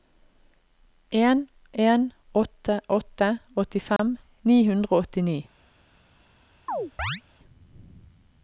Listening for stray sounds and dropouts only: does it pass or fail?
fail